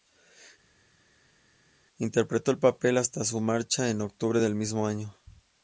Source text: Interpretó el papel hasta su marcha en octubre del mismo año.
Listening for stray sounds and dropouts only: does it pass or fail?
pass